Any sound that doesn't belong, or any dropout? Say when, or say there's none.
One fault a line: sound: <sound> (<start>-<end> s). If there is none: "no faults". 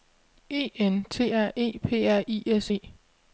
no faults